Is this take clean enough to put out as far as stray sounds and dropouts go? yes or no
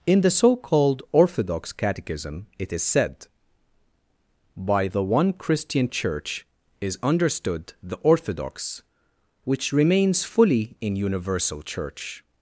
yes